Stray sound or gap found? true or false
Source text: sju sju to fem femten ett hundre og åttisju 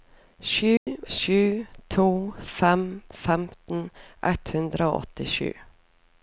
true